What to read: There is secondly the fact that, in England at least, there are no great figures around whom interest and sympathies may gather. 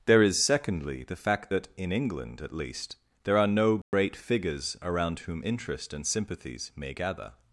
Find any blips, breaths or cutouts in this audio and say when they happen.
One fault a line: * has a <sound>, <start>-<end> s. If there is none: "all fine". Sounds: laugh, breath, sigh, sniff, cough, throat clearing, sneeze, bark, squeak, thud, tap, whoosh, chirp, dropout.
* has a dropout, 3.8-3.9 s